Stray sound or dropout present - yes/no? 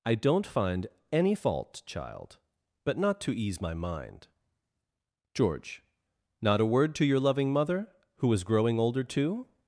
no